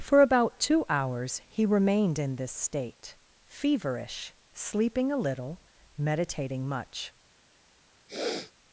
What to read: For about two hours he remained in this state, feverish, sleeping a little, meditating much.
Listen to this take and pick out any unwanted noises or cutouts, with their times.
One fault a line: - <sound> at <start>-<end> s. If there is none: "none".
- sniff at 8.1-8.5 s